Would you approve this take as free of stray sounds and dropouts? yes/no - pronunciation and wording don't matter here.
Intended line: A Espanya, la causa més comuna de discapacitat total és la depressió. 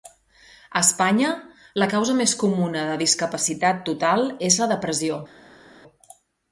yes